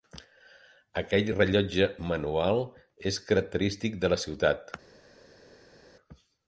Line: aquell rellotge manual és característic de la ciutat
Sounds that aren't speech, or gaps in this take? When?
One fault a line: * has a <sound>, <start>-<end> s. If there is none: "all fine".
all fine